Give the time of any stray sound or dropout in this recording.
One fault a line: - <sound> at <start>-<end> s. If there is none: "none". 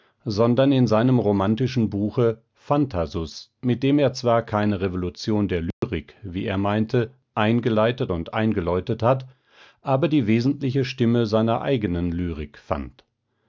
- dropout at 5.7-5.8 s